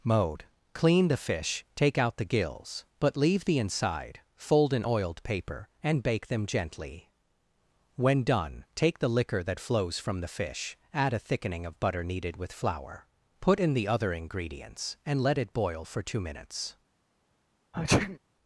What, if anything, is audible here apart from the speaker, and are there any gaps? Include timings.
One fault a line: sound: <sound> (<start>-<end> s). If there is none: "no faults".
sound: sneeze (17.7-18.2 s)